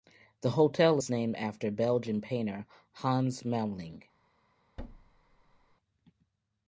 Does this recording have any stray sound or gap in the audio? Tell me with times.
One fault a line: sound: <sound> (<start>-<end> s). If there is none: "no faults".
sound: thud (4.8-5.8 s)